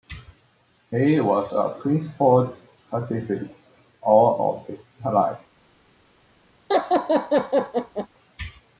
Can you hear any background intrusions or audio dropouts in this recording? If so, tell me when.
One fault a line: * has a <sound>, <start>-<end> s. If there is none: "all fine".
* has a laugh, 6.7-8.1 s